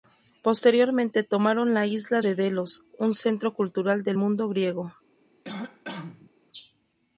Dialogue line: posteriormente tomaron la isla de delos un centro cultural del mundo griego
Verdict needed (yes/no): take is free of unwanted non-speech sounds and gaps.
no